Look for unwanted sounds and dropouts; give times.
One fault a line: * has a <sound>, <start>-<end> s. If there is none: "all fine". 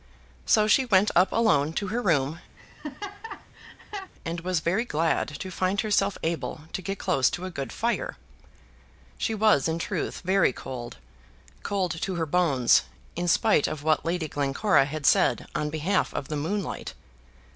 * has a laugh, 2.6-4.1 s